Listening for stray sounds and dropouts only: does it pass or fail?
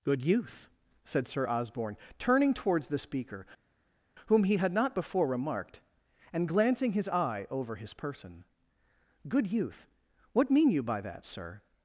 pass